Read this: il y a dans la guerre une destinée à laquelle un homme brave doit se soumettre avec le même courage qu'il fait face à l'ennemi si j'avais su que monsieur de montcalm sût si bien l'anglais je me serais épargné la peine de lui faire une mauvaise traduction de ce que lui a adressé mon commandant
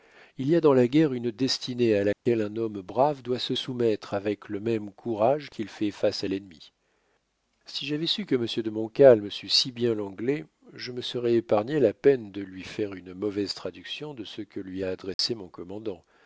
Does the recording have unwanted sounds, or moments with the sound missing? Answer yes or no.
yes